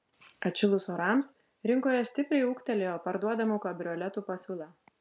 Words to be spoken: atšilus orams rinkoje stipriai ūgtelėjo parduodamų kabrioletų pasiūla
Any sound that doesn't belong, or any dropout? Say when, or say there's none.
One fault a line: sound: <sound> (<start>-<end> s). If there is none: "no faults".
no faults